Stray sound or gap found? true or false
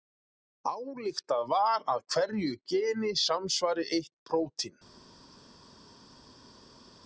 false